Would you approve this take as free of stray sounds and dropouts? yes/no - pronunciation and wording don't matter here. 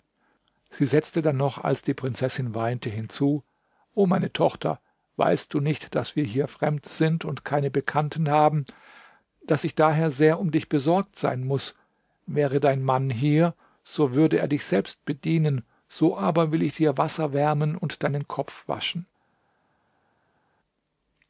yes